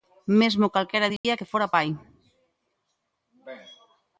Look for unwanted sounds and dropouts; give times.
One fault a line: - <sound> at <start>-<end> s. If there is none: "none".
- dropout at 1.2-1.2 s